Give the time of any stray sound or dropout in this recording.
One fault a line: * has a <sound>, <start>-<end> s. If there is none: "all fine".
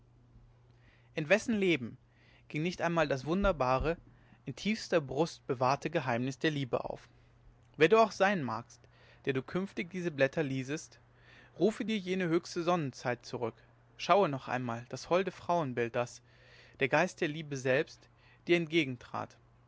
all fine